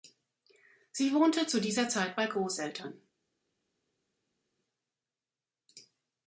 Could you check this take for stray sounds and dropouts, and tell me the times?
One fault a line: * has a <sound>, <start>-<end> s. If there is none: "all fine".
all fine